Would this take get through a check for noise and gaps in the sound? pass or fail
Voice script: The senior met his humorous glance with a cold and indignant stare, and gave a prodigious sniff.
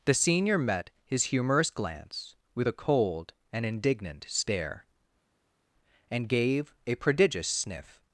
pass